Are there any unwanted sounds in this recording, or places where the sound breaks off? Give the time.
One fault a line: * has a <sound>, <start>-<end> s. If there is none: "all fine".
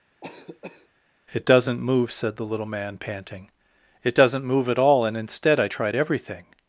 * has a cough, 0.2-0.9 s